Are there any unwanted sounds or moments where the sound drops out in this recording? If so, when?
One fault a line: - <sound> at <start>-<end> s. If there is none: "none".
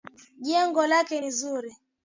none